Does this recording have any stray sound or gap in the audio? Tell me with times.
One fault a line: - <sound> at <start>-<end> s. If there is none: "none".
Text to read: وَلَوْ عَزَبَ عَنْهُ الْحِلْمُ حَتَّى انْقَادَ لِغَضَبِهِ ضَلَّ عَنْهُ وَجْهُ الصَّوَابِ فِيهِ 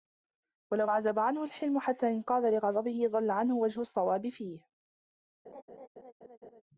- laugh at 5.4-6.6 s